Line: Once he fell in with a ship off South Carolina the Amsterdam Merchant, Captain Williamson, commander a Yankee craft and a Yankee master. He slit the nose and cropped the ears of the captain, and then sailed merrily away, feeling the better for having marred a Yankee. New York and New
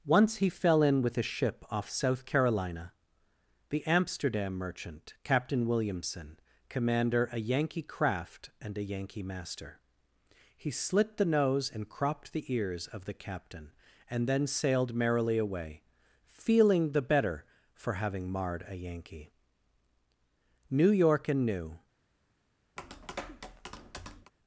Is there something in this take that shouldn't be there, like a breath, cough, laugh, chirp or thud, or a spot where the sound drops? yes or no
yes